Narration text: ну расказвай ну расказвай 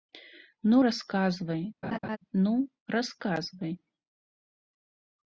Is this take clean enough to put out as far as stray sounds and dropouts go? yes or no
no